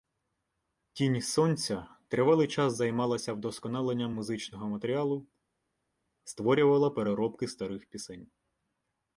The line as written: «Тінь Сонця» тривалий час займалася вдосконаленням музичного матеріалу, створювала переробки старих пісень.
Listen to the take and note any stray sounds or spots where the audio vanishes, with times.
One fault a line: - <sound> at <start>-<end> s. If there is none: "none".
none